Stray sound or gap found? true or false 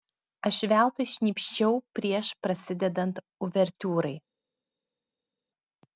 false